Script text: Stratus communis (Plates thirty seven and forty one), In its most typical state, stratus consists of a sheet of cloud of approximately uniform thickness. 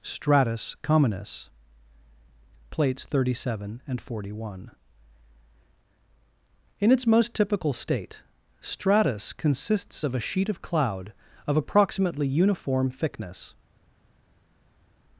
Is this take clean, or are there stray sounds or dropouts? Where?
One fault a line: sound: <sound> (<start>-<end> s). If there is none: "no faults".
no faults